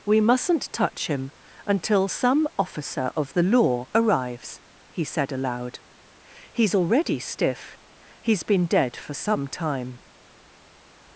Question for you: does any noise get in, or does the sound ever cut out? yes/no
no